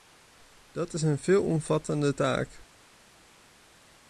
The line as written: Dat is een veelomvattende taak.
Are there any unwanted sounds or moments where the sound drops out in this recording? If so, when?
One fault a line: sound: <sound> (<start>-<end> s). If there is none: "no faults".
no faults